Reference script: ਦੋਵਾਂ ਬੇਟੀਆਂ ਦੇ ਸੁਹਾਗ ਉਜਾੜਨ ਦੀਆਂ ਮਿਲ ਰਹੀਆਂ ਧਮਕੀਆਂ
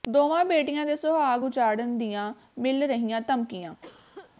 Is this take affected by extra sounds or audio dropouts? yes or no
yes